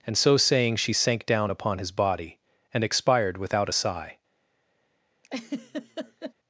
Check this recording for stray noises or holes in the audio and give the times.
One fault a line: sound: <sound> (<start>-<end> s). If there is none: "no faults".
sound: laugh (5.2-6.3 s)